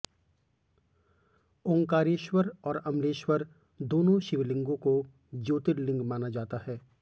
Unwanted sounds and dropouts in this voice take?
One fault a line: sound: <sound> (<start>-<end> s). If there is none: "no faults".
no faults